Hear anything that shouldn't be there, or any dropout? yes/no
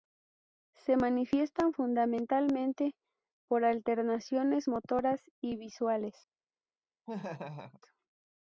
yes